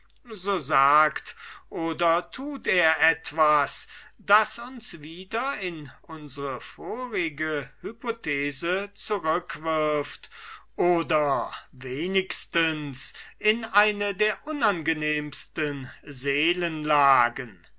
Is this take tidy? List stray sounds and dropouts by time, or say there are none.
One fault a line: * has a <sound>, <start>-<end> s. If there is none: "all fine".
all fine